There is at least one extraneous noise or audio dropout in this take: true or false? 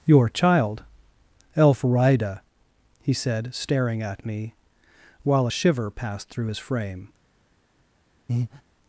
true